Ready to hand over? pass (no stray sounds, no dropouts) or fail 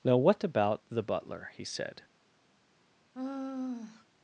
fail